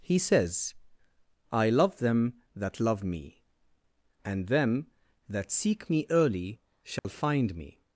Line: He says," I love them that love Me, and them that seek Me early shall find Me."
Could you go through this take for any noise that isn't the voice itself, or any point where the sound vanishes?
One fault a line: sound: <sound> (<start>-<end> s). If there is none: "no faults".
sound: dropout (7.0-7.0 s)